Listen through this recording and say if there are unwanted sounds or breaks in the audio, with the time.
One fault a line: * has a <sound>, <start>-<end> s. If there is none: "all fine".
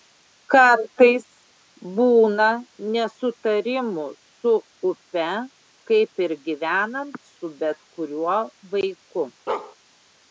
* has a bark, 9.5-9.8 s